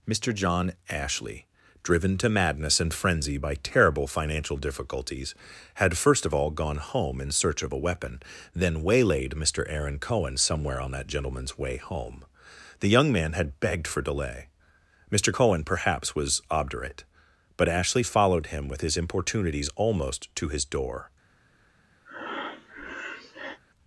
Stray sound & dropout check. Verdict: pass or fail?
fail